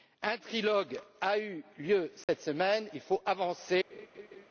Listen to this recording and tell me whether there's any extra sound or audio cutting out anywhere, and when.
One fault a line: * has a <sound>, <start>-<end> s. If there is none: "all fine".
* has a dropout, 2.2-2.3 s
* has a laugh, 3.9-4.5 s